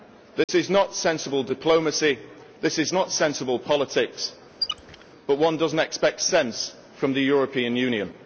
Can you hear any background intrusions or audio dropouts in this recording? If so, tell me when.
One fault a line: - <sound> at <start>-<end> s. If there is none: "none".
- dropout at 0.4-0.5 s
- squeak at 4.6-5.1 s